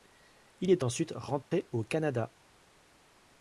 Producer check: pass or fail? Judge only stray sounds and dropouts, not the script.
fail